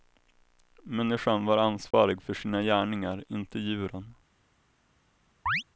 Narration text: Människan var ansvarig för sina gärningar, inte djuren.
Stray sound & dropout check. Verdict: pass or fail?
fail